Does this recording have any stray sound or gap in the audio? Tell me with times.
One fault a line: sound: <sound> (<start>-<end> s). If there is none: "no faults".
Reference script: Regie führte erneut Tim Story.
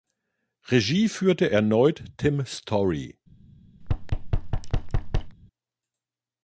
sound: thud (3.8-5.4 s)